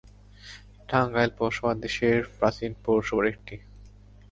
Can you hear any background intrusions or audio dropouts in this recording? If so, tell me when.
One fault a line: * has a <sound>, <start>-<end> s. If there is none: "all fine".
all fine